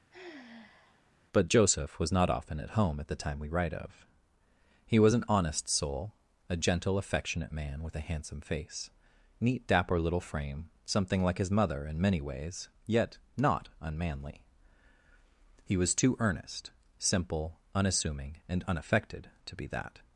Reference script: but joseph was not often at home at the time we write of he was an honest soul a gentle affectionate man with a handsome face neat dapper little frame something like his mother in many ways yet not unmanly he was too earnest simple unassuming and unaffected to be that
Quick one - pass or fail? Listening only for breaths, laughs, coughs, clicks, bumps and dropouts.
fail